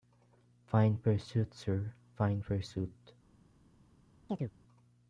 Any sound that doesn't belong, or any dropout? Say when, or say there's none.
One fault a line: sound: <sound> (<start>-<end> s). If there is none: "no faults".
sound: chirp (4.3-4.5 s)